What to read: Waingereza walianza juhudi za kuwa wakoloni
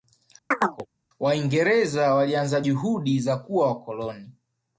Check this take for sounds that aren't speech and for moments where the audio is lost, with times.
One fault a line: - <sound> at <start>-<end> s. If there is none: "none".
- chirp at 0.5-0.9 s